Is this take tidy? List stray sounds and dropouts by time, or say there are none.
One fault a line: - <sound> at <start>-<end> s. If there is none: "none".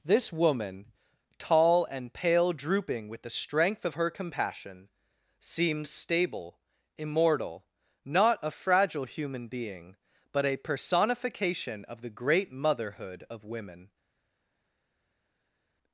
none